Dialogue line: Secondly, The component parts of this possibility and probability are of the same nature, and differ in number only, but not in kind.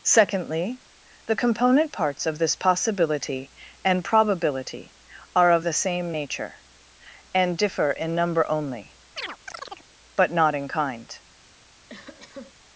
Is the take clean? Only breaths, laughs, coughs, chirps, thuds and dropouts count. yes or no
no